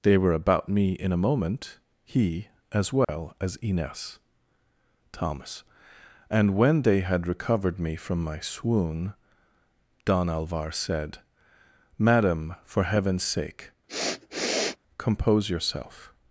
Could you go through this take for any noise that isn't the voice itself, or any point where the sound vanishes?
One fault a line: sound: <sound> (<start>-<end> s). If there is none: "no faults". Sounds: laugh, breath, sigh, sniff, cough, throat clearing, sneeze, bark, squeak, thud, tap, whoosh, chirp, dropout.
sound: dropout (3.0-3.1 s)
sound: sniff (13.9-14.8 s)